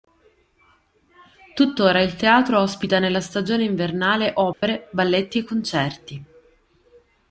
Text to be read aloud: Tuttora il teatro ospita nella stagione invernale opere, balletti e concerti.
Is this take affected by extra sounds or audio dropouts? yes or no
yes